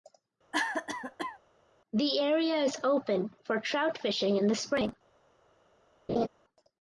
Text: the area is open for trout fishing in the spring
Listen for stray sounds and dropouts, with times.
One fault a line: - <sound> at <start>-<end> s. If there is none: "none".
- cough at 0.5-1.4 s
- laugh at 6.1-6.3 s